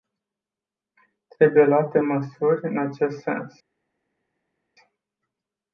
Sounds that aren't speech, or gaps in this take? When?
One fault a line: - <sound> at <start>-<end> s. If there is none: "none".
none